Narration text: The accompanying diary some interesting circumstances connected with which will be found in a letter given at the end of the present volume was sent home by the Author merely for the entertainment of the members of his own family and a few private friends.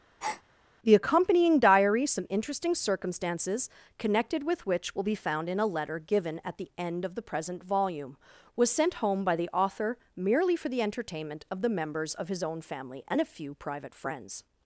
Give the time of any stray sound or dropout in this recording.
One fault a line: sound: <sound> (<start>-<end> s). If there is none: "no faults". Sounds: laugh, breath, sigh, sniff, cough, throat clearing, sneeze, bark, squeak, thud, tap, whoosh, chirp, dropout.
sound: breath (0.2-0.4 s)